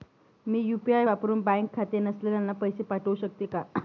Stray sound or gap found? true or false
false